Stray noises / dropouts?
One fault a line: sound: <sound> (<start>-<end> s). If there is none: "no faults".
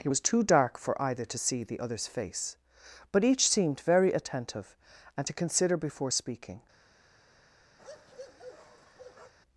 sound: bark (7.8-9.3 s)